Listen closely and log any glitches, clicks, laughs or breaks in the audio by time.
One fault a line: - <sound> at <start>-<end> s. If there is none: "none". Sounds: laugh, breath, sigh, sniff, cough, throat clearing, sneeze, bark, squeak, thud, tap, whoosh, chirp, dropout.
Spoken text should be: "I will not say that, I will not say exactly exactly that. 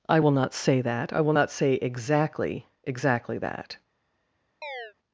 - chirp at 4.6-4.9 s